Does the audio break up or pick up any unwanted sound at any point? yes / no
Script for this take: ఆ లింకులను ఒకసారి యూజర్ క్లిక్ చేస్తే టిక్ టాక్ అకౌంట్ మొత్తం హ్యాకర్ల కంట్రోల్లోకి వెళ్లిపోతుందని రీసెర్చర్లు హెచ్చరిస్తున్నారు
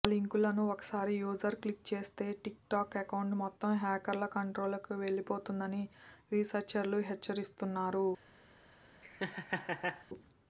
yes